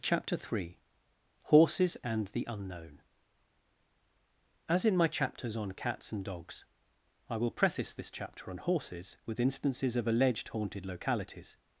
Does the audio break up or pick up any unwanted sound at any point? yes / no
no